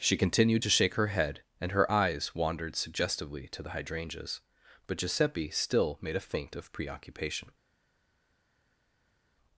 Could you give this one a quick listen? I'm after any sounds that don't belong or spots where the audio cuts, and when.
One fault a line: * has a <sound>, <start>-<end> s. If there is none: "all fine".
all fine